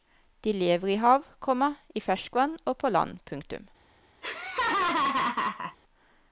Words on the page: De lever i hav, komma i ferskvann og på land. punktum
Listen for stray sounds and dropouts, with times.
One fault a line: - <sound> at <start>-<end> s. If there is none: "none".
- laugh at 4.2-5.8 s